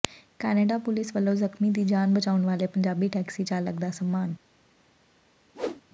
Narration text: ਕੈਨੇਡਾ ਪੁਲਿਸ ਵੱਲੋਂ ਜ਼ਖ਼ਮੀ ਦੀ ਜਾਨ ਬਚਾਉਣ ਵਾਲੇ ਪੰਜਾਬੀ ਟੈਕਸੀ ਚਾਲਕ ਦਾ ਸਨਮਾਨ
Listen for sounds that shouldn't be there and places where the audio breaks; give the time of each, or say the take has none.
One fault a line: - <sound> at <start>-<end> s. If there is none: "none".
- whoosh at 5.5-5.8 s